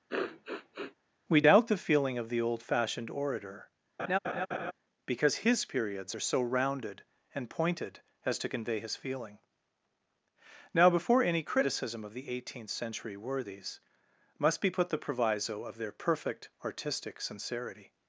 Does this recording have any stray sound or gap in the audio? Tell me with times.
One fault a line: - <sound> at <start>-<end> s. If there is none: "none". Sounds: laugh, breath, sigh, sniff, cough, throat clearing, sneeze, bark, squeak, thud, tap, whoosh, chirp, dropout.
- sniff at 0.1-0.9 s
- laugh at 4.0-4.7 s